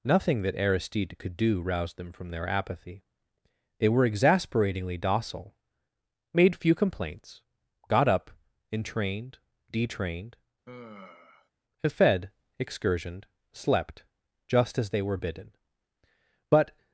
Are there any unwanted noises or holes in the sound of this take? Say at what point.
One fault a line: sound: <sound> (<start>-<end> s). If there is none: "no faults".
sound: sigh (10.7-11.5 s)